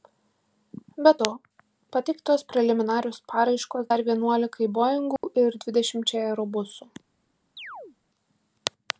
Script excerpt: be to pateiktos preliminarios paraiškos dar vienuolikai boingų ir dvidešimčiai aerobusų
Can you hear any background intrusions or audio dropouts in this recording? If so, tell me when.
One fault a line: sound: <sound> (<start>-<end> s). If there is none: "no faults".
sound: dropout (5.2-5.2 s)
sound: chirp (7.6-8.0 s)